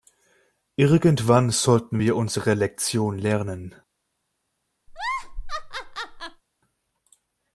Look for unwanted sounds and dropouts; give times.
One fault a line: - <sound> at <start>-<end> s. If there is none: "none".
- laugh at 4.9-6.4 s